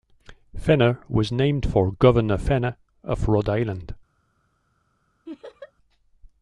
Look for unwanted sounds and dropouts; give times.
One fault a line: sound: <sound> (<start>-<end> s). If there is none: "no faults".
sound: laugh (5.3-5.7 s)